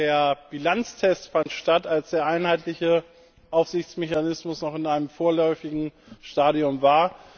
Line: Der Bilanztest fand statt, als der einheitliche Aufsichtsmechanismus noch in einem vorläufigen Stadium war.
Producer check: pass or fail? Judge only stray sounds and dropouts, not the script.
fail